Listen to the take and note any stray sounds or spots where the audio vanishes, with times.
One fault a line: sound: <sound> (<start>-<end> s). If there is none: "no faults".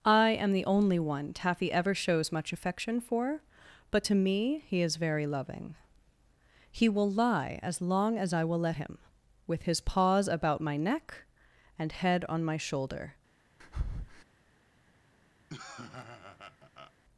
sound: breath (13.6-14.2 s)
sound: laugh (15.5-16.9 s)